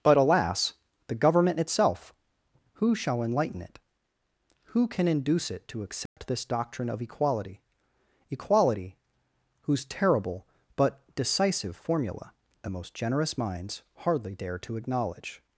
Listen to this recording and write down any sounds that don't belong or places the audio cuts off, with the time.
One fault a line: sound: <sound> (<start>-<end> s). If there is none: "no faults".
sound: dropout (6.1-6.2 s)